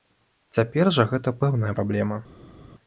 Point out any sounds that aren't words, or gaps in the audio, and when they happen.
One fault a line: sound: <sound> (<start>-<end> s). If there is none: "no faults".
no faults